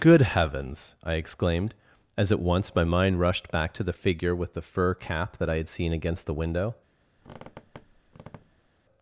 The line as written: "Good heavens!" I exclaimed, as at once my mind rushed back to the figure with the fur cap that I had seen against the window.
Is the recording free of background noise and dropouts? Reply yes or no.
no